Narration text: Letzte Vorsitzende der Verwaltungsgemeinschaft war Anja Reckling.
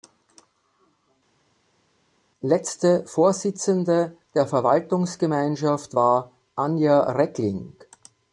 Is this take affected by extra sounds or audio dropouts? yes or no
no